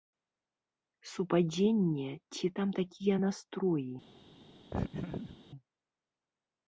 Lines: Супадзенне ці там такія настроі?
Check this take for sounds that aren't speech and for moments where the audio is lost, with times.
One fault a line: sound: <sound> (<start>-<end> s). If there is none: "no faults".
sound: laugh (4.7-5.4 s)